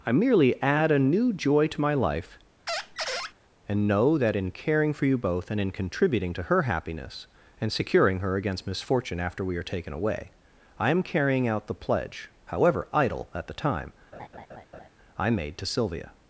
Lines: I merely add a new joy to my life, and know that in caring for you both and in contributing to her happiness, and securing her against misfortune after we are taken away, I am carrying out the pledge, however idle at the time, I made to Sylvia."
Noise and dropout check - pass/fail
fail